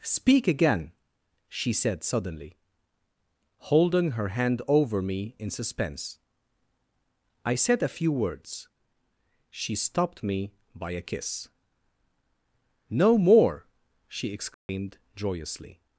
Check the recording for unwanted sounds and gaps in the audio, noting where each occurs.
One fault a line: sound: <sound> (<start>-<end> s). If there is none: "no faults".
sound: dropout (14.5-14.7 s)